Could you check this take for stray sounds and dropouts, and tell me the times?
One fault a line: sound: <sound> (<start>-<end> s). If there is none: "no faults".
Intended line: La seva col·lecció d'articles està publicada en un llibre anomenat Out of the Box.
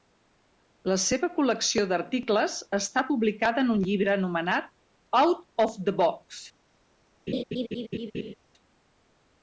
sound: laugh (7.3-8.3 s)